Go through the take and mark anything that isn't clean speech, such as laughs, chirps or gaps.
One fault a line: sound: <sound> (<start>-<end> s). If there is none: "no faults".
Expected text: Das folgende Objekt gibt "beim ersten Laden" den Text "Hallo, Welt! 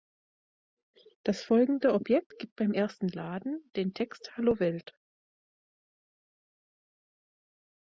no faults